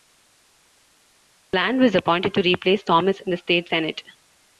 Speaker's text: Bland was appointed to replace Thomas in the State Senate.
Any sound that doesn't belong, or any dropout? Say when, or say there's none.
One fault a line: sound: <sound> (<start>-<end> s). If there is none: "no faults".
no faults